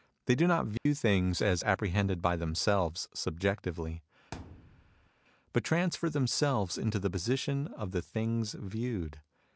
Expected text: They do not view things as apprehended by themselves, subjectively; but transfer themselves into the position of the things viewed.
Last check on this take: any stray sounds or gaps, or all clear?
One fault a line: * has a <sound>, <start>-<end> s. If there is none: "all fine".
* has a dropout, 0.8-0.9 s
* has a thud, 4.3-5.1 s